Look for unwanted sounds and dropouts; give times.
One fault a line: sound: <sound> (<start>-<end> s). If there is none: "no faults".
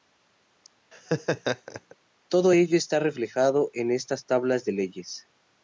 sound: laugh (0.9-2.0 s)